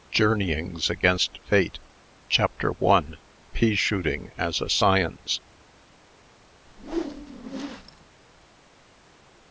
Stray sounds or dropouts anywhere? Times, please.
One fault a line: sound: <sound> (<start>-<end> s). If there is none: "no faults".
sound: whoosh (6.7-8.1 s)